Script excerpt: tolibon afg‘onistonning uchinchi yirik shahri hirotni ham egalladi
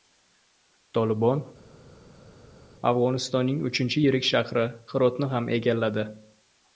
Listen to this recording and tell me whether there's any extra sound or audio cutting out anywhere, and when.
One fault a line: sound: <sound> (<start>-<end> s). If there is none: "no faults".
no faults